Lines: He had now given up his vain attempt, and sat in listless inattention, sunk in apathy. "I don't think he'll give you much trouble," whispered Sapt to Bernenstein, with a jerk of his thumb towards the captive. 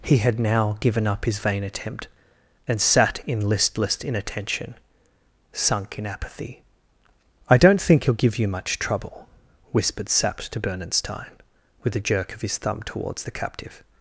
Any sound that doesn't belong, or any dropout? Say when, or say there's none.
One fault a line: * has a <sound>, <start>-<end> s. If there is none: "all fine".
all fine